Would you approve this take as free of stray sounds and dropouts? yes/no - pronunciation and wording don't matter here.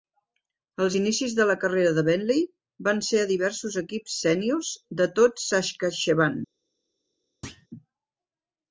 no